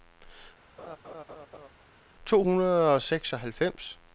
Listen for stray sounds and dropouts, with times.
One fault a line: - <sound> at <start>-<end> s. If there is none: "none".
- laugh at 0.8-1.7 s